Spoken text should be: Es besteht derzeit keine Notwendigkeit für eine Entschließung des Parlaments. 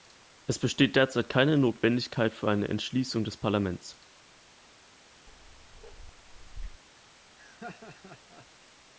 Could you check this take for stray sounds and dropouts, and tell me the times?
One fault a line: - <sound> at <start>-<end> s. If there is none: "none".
- bark at 5.3-6.8 s
- laugh at 7.4-8.5 s